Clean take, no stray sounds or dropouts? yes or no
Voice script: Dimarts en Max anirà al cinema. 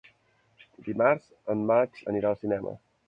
yes